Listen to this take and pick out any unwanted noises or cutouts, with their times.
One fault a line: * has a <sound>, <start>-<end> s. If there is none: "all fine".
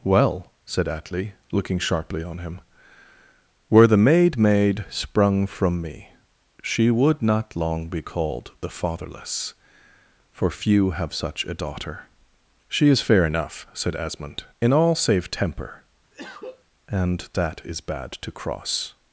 * has a cough, 16.1-16.7 s